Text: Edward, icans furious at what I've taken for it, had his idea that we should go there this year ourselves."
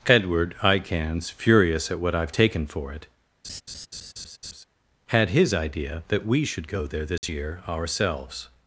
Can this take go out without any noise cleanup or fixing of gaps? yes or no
no